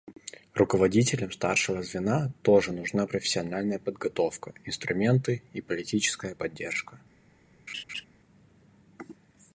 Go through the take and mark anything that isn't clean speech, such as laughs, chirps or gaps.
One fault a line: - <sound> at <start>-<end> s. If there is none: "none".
- laugh at 7.7-8.1 s